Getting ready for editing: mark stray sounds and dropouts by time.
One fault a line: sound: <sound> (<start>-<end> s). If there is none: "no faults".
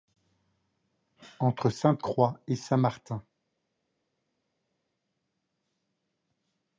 no faults